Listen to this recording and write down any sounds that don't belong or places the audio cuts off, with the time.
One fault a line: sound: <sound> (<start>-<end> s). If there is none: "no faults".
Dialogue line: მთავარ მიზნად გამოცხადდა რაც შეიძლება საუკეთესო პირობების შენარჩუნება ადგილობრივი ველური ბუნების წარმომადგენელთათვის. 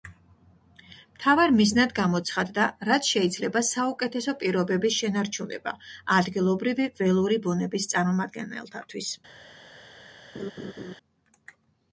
sound: laugh (10.3-10.9 s)